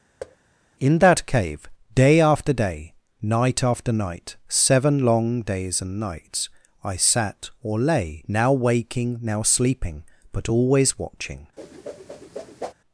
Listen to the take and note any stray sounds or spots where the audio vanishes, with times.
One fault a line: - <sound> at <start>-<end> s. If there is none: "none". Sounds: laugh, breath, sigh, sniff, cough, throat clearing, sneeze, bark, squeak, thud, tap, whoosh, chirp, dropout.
- thud at 0.2-0.4 s
- whoosh at 11.6-12.7 s